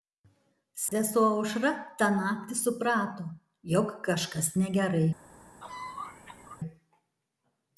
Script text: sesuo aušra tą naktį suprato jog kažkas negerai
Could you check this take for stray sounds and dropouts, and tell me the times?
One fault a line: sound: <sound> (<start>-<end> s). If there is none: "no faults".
sound: dropout (0.9-0.9 s)
sound: cough (5.6-6.6 s)